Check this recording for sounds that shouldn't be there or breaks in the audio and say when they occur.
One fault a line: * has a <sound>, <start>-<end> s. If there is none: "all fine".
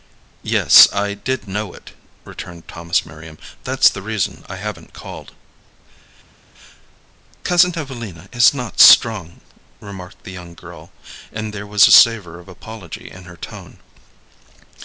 all fine